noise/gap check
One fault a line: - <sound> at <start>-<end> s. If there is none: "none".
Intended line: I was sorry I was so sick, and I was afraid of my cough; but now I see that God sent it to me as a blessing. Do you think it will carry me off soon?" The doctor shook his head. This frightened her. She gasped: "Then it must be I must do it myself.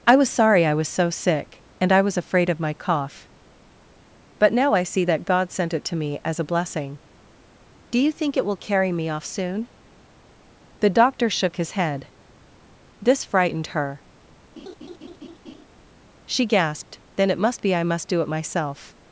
- laugh at 14.6-15.7 s